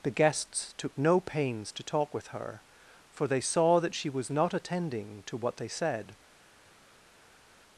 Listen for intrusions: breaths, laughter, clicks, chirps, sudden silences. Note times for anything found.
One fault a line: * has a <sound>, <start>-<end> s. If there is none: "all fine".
all fine